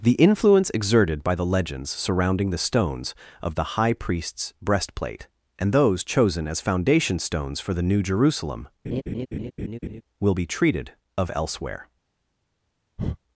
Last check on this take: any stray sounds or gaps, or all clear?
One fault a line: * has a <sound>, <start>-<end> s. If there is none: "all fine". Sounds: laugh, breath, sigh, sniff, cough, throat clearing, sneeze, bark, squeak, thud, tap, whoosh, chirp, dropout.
* has a laugh, 8.8-10.0 s
* has a breath, 13.0-13.2 s